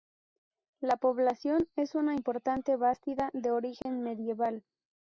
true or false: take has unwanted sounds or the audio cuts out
true